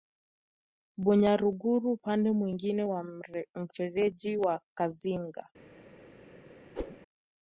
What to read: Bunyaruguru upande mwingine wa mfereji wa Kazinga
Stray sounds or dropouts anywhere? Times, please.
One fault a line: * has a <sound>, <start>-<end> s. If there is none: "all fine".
* has a whoosh, 6.8-7.0 s